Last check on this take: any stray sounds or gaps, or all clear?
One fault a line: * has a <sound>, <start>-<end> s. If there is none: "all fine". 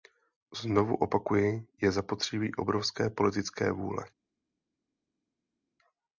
all fine